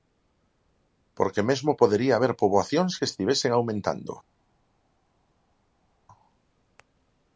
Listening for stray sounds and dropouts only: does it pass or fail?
pass